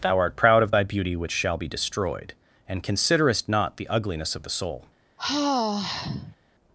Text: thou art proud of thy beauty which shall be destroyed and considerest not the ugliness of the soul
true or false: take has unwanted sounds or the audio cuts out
true